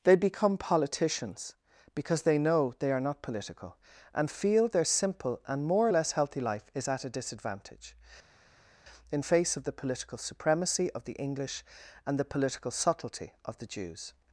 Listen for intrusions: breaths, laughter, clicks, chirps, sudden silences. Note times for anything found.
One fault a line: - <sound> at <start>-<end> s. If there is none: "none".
none